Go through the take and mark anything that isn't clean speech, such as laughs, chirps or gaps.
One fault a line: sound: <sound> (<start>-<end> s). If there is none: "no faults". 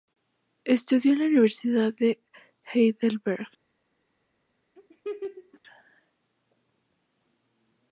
sound: laugh (4.8-5.6 s)